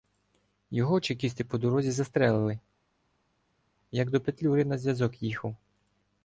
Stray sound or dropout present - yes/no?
no